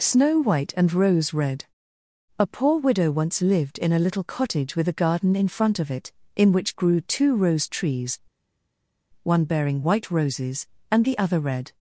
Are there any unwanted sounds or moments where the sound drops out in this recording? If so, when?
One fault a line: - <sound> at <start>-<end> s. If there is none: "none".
none